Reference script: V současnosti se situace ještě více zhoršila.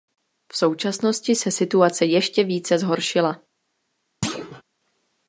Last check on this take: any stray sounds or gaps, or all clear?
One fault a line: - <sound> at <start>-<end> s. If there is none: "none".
- thud at 4.2-4.6 s